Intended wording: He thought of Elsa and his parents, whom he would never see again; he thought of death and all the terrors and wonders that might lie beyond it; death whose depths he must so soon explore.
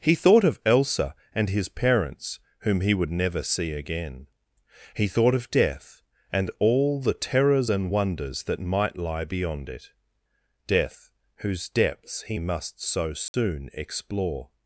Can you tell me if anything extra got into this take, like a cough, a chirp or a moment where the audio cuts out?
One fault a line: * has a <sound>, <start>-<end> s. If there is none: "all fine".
* has a dropout, 13.3-13.3 s